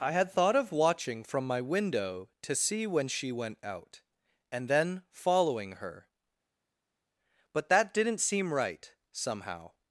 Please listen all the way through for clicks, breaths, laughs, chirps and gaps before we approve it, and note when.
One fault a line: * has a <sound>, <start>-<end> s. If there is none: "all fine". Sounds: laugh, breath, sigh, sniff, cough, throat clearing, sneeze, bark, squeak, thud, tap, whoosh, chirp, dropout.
all fine